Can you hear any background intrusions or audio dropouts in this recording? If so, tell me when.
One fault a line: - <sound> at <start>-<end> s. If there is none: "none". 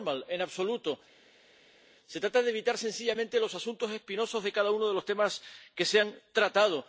none